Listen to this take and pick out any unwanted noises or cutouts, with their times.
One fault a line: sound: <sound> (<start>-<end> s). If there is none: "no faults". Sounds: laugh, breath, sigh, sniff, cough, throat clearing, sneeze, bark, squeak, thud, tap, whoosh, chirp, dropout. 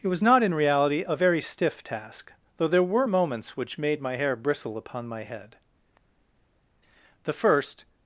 no faults